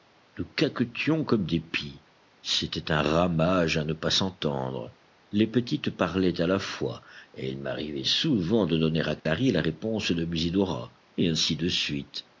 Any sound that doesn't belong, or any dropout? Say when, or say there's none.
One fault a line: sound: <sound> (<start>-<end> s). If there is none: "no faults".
sound: dropout (9.2-9.3 s)